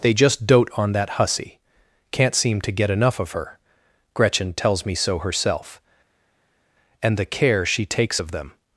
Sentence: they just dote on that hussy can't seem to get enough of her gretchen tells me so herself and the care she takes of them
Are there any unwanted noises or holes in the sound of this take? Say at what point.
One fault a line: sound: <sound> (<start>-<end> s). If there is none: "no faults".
no faults